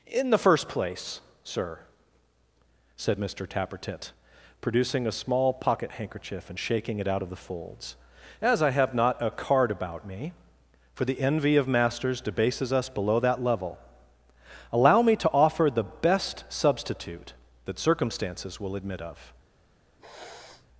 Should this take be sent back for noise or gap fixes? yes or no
yes